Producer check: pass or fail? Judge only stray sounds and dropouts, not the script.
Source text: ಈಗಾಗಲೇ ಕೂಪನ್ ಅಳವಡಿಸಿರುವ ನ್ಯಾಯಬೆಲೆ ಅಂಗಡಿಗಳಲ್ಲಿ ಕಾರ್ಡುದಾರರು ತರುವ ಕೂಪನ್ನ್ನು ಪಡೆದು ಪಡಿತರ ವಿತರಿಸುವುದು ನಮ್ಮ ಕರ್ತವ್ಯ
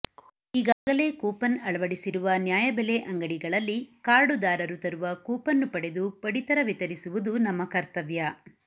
fail